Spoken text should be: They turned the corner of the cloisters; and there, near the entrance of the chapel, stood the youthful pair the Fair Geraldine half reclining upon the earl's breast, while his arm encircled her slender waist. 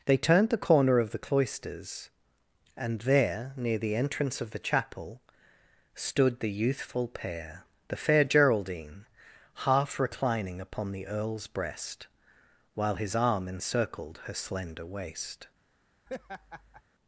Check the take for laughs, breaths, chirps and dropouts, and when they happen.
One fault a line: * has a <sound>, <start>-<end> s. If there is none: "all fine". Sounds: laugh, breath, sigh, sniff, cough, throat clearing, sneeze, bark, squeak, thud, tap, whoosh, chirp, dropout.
* has a laugh, 16.1-16.8 s